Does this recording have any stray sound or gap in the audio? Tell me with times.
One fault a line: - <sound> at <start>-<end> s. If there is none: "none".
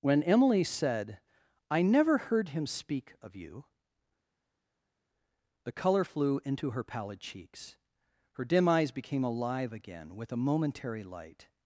none